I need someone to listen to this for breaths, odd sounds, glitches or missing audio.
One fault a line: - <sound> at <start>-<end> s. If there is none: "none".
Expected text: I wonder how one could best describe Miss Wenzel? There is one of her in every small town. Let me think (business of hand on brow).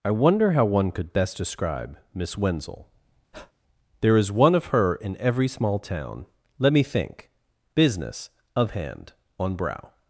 - breath at 3.3-3.5 s